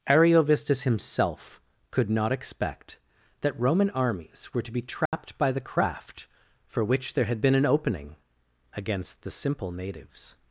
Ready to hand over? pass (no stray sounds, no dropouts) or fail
fail